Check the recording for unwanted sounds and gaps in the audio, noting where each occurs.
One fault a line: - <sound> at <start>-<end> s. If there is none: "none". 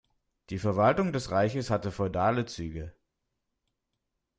none